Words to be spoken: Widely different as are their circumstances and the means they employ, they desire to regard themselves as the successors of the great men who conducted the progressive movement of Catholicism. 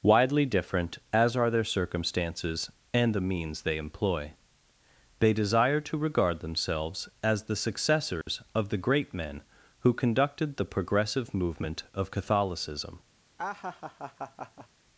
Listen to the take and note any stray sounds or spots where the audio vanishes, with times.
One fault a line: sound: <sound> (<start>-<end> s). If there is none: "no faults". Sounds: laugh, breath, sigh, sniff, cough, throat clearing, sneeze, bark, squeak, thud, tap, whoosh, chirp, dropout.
sound: dropout (8.2-8.3 s)
sound: laugh (13.4-14.7 s)